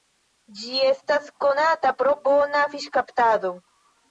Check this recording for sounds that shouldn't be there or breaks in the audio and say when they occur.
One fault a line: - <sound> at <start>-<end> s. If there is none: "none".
none